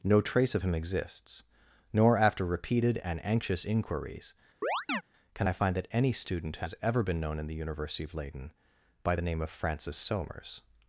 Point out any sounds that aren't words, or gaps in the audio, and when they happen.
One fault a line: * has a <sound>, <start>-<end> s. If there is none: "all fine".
* has a chirp, 4.6-5.0 s